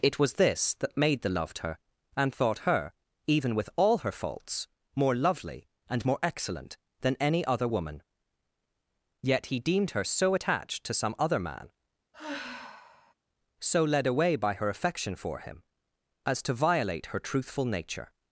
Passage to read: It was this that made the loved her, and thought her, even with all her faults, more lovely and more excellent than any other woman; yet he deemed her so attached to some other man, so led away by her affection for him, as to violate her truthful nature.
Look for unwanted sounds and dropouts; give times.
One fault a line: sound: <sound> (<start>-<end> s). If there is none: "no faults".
sound: sigh (12.1-13.1 s)